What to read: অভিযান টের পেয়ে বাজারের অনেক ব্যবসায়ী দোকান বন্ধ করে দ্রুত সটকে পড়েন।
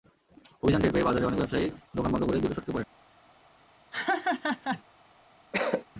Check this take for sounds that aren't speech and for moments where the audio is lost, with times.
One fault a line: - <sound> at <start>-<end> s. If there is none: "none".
- laugh at 3.9-4.8 s
- cough at 5.5-5.8 s